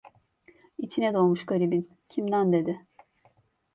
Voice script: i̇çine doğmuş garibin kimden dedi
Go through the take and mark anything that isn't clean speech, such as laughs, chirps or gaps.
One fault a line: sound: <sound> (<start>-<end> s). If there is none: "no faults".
no faults